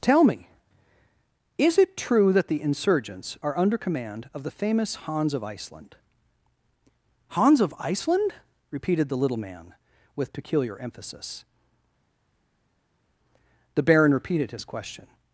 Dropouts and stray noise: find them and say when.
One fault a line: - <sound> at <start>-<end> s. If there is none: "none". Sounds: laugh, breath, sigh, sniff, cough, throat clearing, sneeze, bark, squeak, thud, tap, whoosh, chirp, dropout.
none